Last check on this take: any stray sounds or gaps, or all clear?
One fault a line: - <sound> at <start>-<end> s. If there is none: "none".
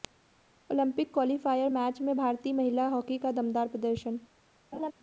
- laugh at 4.7-4.9 s